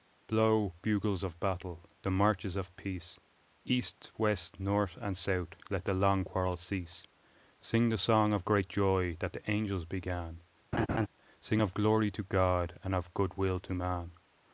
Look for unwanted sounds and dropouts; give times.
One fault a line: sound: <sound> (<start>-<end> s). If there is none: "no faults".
sound: laugh (10.7-11.1 s)